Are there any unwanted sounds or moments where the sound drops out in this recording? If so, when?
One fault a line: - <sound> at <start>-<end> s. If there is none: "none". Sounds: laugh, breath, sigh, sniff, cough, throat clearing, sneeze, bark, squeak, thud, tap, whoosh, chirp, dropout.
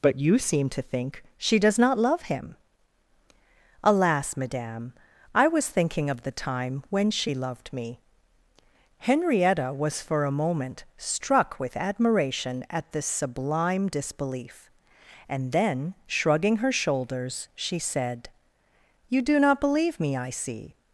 none